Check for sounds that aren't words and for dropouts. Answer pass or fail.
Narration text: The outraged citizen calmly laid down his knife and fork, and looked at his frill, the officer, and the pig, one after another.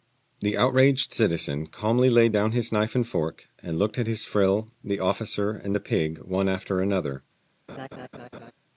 fail